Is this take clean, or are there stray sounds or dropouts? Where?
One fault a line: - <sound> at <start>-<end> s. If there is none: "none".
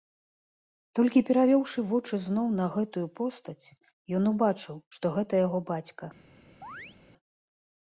- chirp at 6.6-7.0 s